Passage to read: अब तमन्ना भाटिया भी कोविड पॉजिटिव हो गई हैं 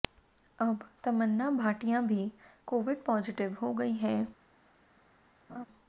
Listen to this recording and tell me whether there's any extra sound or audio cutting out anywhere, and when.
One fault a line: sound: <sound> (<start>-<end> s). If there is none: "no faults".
sound: laugh (5.5-5.7 s)